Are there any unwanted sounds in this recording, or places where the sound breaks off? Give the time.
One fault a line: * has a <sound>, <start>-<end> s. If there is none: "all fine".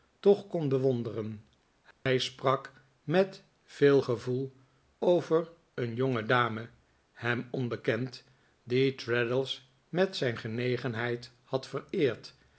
* has a dropout, 1.9-2.1 s